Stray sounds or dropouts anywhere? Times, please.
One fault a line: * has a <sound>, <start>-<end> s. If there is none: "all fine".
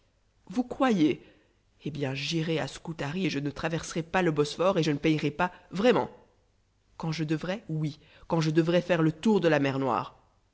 all fine